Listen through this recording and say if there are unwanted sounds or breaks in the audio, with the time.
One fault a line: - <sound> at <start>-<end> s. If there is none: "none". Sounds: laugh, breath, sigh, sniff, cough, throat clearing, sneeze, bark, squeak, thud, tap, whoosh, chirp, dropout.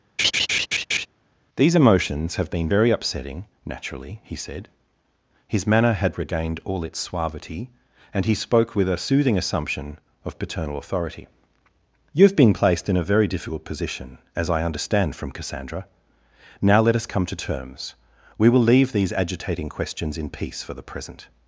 - laugh at 0.2-1.1 s